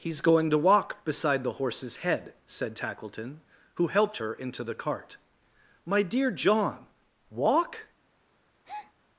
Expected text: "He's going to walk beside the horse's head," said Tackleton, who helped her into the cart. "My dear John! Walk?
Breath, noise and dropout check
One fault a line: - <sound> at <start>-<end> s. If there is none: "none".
- breath at 8.6-8.9 s